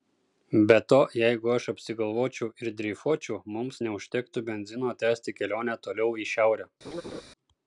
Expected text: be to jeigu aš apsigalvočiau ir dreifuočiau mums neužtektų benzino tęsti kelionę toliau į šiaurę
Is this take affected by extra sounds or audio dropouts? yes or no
yes